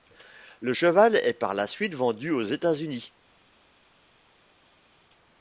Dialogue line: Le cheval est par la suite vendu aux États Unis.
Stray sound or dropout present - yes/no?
no